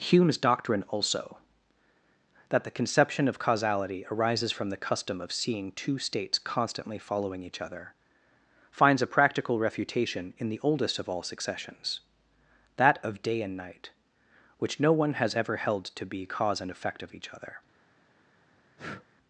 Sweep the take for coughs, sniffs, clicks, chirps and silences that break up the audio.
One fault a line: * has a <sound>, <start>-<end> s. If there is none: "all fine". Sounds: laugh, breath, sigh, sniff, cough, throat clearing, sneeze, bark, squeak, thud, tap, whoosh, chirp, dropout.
* has a breath, 18.8-19.1 s